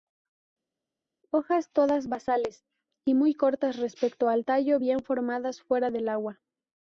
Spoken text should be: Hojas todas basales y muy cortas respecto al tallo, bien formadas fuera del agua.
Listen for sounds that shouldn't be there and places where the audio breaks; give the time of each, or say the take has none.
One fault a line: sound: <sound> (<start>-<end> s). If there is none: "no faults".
no faults